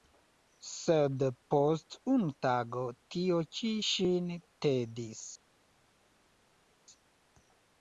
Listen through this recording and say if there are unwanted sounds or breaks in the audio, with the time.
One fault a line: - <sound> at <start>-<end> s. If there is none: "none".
none